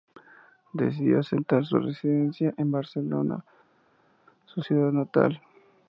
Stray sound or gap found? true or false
false